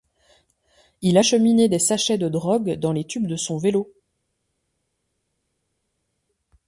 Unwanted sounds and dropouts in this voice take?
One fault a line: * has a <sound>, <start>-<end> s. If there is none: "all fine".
all fine